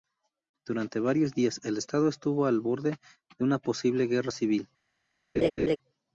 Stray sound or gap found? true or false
true